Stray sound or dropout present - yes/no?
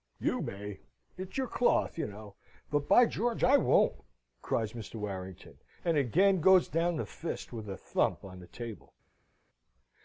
no